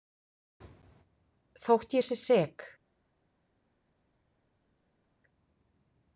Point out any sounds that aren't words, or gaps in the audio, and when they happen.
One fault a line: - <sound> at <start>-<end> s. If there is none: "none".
none